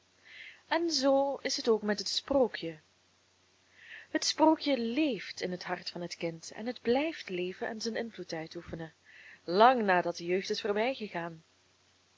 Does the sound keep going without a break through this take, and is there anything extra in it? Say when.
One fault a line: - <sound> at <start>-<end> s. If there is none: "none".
none